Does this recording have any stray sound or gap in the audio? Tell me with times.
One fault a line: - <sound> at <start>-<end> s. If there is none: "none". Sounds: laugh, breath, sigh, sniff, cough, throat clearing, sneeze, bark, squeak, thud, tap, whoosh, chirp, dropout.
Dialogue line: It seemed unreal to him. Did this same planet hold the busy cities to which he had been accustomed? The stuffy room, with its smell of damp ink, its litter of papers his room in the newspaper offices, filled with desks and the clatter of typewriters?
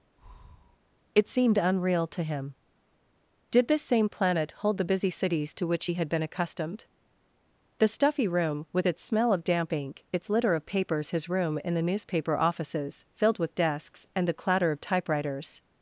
- breath at 0.2-0.8 s